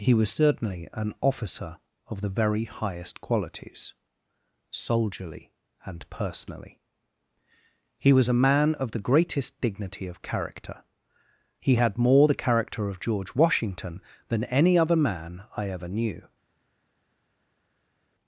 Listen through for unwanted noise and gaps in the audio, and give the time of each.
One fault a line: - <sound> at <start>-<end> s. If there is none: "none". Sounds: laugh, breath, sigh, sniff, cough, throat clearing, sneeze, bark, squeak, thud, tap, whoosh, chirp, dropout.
none